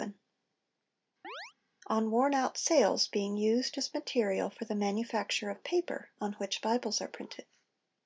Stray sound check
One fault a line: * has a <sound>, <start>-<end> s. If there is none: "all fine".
* has a chirp, 1.2-1.5 s